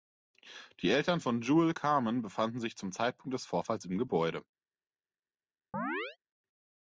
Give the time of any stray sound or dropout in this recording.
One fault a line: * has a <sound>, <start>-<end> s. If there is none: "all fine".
* has a chirp, 5.7-6.2 s